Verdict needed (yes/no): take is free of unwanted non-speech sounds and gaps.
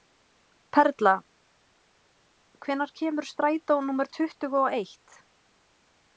yes